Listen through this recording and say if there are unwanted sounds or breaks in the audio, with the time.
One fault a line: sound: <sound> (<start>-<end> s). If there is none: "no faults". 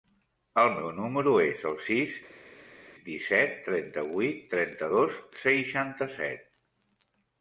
no faults